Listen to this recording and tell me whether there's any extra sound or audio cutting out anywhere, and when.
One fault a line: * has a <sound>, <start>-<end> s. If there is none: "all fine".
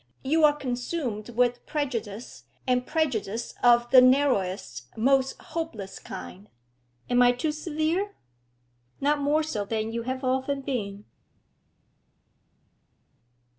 all fine